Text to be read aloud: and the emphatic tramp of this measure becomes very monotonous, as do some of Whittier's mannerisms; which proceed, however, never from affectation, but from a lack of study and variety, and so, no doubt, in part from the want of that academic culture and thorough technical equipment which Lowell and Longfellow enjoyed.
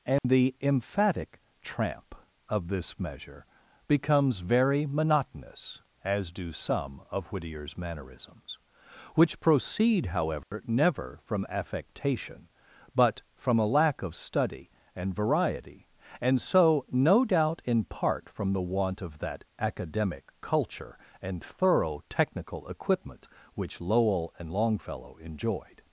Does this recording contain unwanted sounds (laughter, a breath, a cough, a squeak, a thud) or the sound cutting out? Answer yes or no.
yes